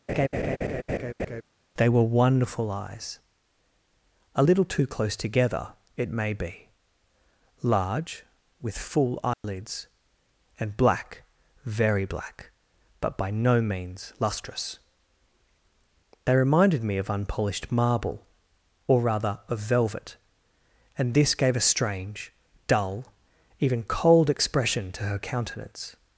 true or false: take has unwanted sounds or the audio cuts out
true